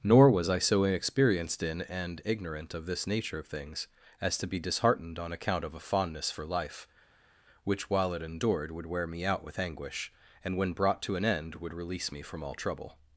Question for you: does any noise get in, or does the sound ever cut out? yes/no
no